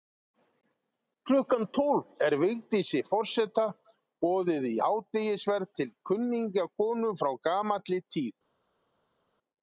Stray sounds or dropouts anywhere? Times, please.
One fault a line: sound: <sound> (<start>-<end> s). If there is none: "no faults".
no faults